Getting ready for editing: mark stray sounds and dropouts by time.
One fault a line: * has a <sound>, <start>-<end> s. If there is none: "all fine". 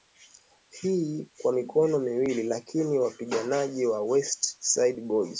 all fine